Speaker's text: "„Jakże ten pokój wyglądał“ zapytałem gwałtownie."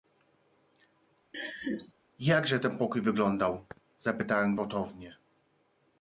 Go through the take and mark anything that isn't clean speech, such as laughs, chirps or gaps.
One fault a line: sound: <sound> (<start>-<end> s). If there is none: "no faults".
sound: laugh (1.3-1.9 s)